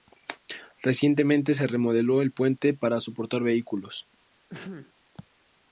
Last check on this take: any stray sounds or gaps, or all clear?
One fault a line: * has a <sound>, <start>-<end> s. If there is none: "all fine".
* has a sneeze, 4.5-4.9 s